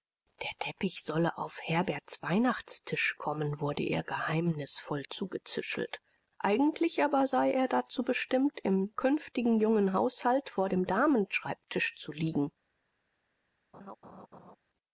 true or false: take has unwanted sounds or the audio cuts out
true